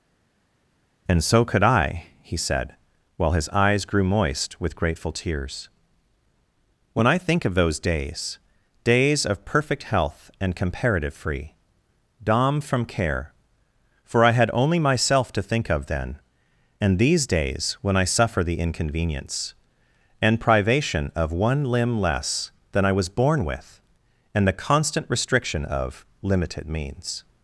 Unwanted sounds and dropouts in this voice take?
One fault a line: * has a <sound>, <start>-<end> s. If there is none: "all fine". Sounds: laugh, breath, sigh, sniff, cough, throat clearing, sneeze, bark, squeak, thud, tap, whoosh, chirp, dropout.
all fine